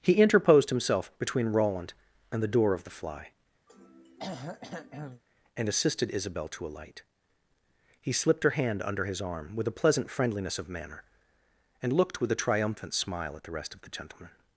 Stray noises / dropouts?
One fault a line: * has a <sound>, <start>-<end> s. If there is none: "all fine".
* has a throat clearing, 3.7-5.2 s